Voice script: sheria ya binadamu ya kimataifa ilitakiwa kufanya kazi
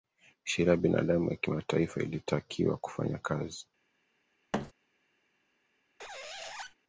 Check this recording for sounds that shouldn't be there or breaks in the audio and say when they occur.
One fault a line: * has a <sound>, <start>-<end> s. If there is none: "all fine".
* has a thud, 4.5-4.7 s
* has a squeak, 6.0-6.8 s